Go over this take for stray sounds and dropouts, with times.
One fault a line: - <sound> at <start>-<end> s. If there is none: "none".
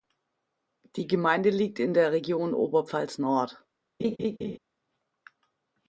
- laugh at 4.0-4.6 s